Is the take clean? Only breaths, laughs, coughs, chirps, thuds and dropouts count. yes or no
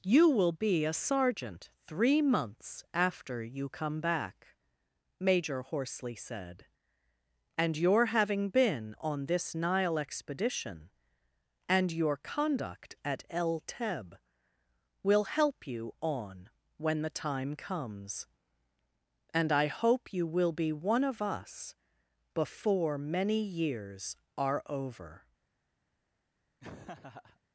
no